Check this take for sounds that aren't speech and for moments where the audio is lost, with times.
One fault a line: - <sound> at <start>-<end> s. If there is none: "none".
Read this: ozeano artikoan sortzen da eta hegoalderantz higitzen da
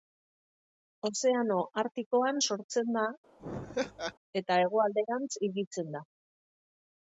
- laugh at 3.4-4.1 s